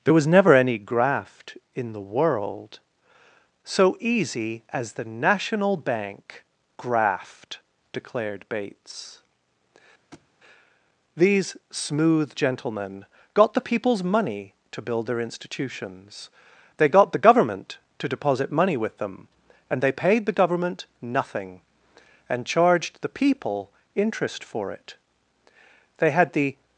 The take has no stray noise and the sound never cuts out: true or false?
false